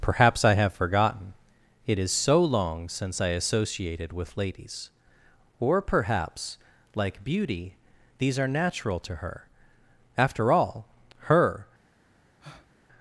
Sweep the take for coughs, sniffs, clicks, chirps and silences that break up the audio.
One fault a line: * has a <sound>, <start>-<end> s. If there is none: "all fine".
* has a breath, 12.4-12.7 s